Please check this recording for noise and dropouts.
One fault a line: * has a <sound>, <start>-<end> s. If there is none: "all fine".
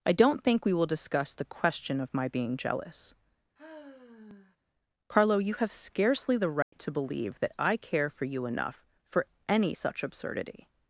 * has a sigh, 3.6-4.6 s
* has a dropout, 6.6-6.7 s